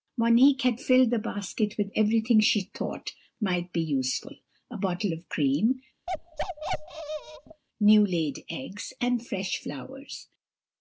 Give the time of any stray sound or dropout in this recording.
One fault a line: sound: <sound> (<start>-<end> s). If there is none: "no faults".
sound: bark (6.1-7.6 s)